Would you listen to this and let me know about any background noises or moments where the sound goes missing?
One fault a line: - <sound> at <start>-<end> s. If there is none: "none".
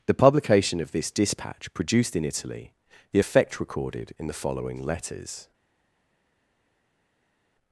none